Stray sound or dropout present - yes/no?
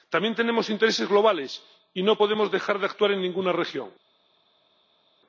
no